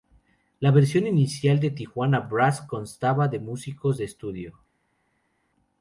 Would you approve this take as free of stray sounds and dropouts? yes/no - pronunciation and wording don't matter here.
yes